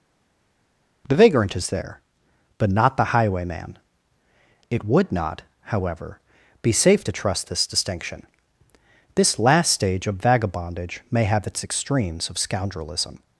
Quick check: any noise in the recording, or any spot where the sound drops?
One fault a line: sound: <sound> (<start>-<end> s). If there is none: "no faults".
no faults